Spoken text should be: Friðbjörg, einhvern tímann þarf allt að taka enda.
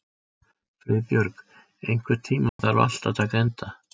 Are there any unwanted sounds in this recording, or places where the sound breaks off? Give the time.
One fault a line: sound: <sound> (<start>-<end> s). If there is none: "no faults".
sound: dropout (2.5-2.6 s)